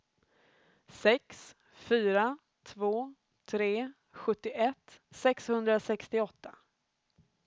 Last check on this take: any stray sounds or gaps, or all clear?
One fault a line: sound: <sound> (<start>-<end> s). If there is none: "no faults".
no faults